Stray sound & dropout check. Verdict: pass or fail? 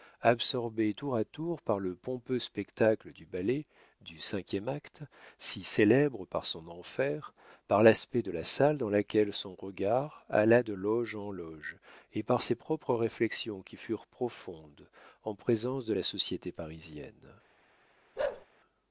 fail